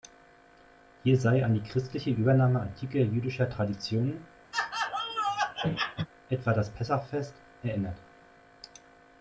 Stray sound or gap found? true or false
true